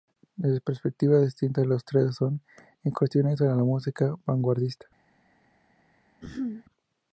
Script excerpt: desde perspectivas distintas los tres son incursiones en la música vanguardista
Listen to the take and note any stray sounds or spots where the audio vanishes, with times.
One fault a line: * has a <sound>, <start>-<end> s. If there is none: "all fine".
* has a throat clearing, 6.2-6.6 s